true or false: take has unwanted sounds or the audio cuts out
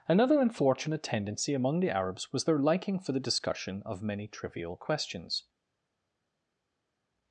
false